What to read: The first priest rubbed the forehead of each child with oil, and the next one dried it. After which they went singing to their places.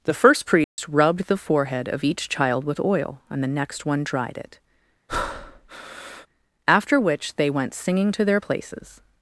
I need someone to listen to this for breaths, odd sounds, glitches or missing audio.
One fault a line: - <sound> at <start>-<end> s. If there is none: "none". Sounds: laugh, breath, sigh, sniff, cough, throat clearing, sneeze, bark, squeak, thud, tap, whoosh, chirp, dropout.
- dropout at 0.6-0.8 s
- breath at 5.1-6.3 s